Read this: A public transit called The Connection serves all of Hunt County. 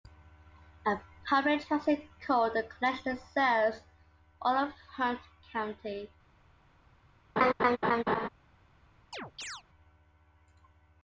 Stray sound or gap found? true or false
true